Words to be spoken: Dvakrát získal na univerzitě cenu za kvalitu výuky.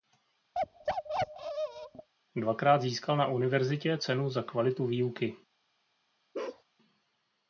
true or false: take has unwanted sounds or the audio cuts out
true